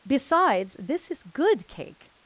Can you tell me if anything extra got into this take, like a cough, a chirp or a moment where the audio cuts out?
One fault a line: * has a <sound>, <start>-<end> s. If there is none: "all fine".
all fine